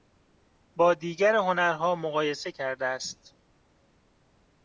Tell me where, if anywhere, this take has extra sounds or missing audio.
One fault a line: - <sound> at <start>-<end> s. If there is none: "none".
none